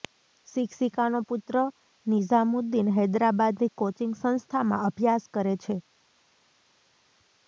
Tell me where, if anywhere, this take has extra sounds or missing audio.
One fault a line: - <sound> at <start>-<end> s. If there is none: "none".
none